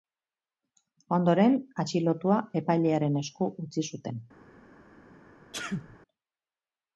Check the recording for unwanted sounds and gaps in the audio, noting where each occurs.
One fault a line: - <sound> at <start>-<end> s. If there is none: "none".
- sneeze at 5.5-6.0 s